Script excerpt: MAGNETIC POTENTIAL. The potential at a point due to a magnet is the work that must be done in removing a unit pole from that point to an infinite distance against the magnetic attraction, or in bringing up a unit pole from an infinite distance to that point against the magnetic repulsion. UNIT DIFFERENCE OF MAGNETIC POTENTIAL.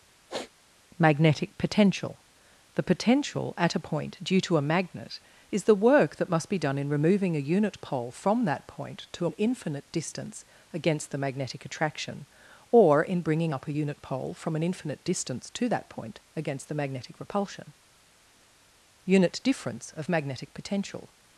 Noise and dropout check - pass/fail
fail